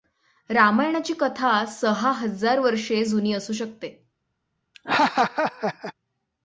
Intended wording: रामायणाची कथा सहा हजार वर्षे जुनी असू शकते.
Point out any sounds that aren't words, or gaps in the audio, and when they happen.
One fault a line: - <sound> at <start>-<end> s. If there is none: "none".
- laugh at 4.7-5.9 s